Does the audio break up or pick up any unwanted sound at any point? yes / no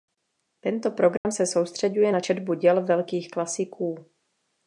yes